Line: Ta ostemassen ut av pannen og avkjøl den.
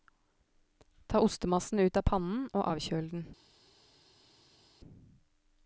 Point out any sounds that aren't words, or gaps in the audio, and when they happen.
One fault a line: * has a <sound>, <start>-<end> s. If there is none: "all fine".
all fine